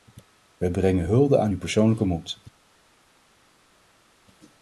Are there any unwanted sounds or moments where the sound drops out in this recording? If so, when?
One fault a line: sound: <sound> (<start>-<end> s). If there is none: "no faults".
no faults